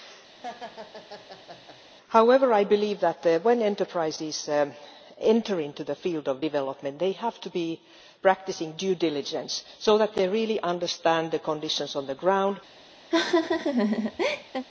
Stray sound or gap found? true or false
true